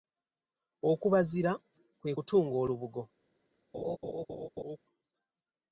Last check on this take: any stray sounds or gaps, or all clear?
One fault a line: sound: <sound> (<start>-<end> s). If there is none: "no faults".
sound: laugh (3.7-4.8 s)